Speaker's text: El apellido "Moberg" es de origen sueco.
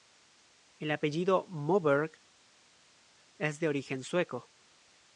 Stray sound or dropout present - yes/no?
no